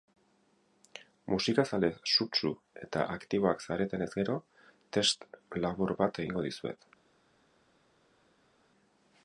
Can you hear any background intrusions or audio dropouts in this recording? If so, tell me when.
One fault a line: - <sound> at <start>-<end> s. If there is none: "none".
none